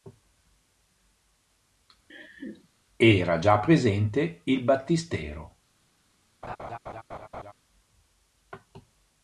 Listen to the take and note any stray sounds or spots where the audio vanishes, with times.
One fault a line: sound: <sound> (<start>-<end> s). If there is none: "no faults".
sound: laugh (2.1-2.7 s)
sound: laugh (6.4-7.5 s)